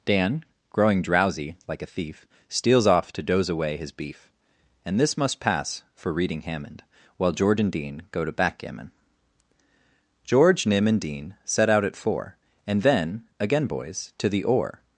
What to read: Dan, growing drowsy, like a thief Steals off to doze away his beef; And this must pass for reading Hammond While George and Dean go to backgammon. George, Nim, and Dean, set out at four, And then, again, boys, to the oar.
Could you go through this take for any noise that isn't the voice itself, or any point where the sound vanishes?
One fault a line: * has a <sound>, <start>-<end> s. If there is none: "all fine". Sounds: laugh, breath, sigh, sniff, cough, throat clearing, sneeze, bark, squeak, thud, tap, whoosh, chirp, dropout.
all fine